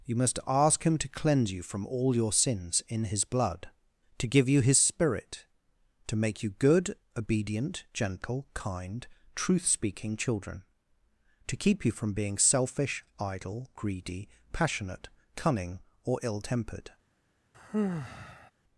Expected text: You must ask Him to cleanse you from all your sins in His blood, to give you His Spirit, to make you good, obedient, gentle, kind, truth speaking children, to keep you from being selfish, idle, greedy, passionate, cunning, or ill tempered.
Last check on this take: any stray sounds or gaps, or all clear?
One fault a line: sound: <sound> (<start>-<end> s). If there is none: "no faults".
sound: sigh (17.5-18.5 s)